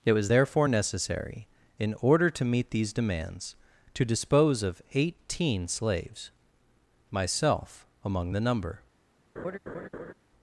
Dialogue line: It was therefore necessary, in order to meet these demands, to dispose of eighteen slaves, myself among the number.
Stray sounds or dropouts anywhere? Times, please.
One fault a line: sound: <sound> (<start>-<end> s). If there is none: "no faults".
sound: laugh (9.4-10.1 s)